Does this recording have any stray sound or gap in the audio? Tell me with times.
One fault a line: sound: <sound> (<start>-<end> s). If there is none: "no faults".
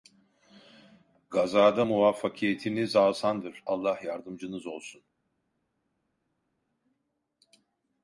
no faults